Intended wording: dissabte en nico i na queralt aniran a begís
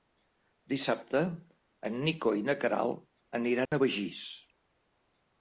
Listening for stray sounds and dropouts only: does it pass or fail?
fail